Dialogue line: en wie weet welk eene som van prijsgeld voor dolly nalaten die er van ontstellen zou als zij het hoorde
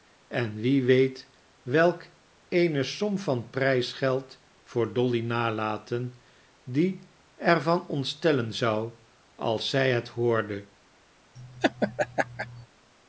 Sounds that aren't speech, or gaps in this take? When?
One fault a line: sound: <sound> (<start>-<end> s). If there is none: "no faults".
sound: laugh (11.4-12.7 s)